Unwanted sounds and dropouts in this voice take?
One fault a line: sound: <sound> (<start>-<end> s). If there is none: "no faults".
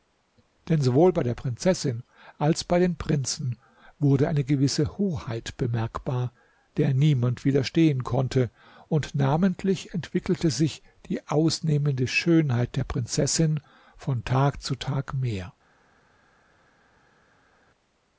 no faults